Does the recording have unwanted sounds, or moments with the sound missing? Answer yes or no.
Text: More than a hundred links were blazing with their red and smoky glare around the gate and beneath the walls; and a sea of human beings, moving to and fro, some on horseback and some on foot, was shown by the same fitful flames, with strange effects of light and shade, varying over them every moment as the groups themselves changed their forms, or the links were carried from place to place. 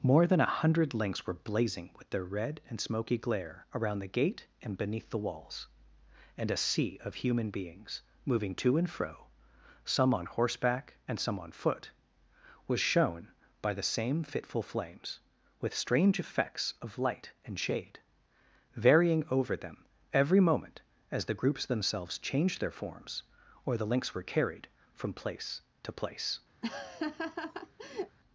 yes